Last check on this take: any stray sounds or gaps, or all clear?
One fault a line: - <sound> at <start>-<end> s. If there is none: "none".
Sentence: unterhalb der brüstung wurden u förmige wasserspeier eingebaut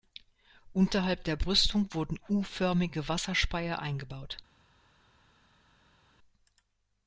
none